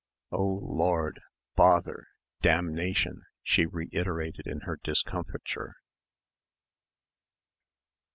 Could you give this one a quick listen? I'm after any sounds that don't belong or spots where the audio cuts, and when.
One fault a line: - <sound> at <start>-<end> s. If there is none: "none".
none